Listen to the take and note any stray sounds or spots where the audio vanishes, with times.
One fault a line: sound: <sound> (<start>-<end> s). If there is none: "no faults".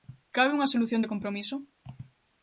no faults